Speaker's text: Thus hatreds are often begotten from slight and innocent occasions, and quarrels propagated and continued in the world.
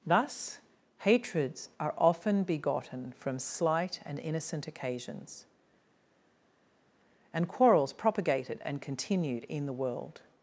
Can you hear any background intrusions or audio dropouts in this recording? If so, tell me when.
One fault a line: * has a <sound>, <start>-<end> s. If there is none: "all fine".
all fine